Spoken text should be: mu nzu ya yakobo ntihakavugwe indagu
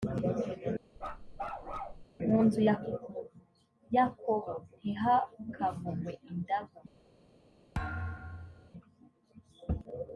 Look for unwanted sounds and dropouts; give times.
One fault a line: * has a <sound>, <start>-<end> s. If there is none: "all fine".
* has a bark, 1.0-2.0 s
* has a thud, 7.7-8.7 s